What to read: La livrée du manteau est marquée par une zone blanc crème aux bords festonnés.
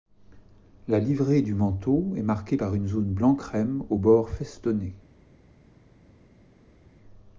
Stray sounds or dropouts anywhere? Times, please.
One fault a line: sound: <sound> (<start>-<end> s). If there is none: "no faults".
no faults